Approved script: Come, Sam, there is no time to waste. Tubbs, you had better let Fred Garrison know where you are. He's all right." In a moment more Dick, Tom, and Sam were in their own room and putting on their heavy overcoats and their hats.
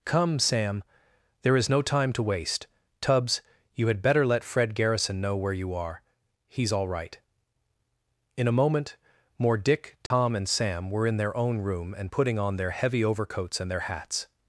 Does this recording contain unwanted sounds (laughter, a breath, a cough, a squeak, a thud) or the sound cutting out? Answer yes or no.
yes